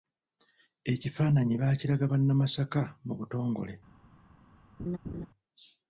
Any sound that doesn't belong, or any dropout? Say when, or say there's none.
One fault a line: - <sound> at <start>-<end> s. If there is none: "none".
- laugh at 4.8-5.3 s